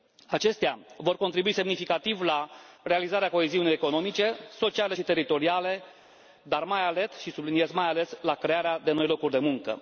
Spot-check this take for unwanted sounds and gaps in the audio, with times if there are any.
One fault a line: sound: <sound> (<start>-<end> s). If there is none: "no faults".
no faults